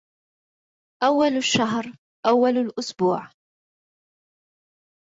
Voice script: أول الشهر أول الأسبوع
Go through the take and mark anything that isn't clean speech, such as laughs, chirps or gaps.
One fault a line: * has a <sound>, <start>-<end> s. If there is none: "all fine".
all fine